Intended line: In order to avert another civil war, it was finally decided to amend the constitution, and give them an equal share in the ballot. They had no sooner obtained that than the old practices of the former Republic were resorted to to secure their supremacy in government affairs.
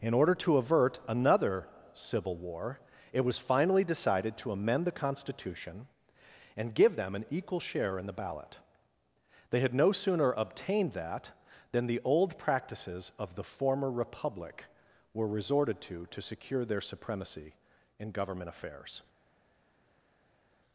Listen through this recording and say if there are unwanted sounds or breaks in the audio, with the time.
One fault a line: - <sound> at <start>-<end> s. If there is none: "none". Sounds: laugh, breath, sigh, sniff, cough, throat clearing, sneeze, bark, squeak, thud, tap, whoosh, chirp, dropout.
none